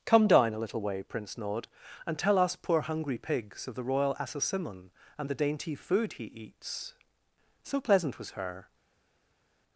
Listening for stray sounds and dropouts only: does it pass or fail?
pass